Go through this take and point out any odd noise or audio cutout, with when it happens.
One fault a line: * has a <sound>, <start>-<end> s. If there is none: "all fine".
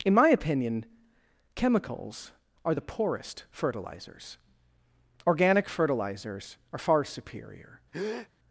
* has a breath, 7.9-8.3 s